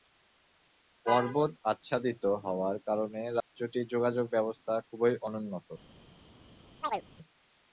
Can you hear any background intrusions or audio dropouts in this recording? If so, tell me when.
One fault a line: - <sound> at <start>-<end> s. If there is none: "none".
- dropout at 3.4-3.5 s
- chirp at 6.8-7.1 s